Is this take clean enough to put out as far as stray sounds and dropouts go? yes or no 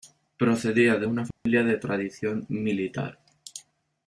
no